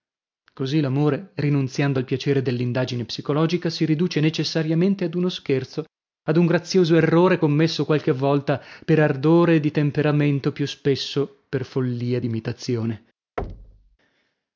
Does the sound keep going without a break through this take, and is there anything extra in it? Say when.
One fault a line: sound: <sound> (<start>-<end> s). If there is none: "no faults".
sound: thud (13.4-14.0 s)